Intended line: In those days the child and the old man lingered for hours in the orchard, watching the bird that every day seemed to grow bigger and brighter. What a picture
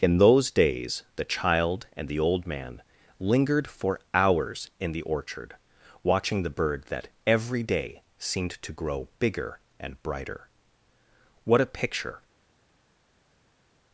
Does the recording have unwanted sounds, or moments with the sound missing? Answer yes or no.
no